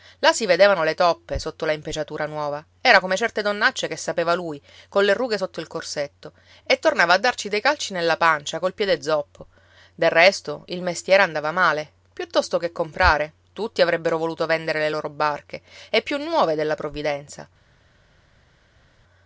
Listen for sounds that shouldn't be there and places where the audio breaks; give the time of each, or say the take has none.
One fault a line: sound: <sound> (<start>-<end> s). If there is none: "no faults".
no faults